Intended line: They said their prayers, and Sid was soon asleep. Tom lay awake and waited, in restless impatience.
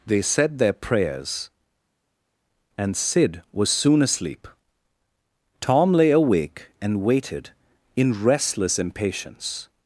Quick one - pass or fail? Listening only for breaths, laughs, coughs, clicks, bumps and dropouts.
pass